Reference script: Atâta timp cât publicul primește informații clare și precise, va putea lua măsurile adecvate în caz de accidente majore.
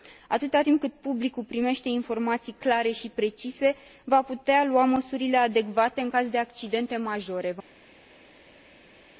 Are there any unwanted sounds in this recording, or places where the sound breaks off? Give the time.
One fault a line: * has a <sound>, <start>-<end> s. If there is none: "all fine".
all fine